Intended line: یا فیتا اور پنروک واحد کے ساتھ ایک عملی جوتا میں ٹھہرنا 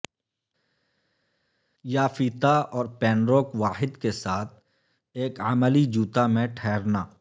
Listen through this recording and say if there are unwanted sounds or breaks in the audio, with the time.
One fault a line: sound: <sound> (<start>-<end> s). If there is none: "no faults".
no faults